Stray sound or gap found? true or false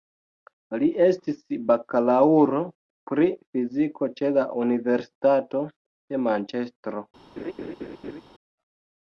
true